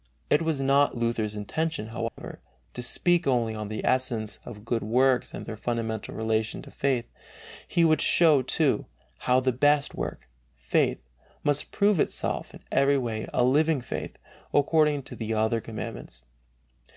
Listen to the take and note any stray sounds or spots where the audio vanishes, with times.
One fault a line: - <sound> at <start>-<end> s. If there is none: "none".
- dropout at 2.1-2.2 s